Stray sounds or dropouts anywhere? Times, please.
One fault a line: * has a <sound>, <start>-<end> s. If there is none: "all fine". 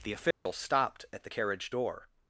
* has a dropout, 0.3-0.5 s